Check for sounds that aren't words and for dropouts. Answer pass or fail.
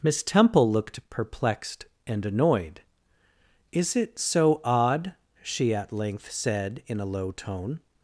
pass